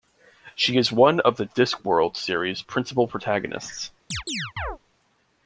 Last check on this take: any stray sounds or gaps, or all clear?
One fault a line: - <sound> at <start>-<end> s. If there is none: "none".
- chirp at 4.1-4.8 s